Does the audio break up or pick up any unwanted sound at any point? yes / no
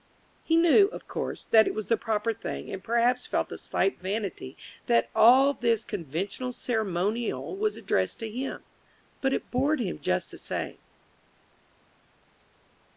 no